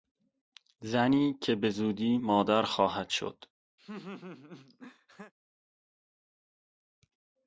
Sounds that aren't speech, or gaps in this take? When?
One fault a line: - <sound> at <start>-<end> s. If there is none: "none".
- laugh at 3.8-5.3 s